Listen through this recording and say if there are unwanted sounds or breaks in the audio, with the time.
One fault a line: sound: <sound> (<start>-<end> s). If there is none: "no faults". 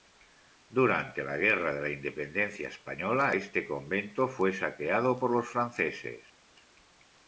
no faults